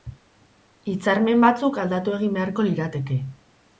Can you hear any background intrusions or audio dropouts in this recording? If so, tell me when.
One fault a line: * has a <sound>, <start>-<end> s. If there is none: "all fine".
all fine